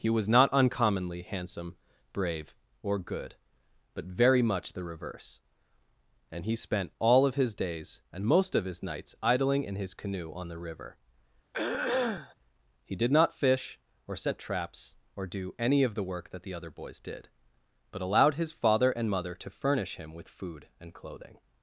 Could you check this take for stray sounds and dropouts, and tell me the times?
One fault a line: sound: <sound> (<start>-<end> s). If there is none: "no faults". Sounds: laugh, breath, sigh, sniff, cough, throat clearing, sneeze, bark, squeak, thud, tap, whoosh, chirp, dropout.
sound: throat clearing (11.5-12.3 s)